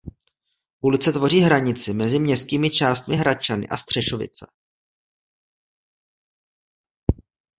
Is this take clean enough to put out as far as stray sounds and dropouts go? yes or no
yes